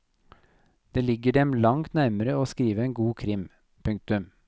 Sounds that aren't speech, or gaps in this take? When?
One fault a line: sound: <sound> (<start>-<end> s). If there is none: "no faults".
no faults